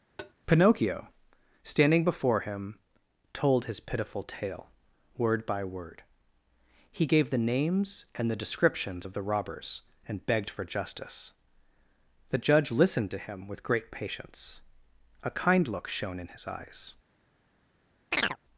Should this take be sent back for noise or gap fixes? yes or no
yes